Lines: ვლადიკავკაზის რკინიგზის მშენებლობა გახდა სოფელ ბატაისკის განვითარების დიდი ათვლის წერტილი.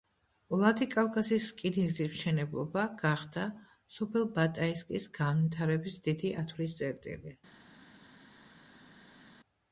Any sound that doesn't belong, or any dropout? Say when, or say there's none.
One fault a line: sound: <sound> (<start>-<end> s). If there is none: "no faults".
no faults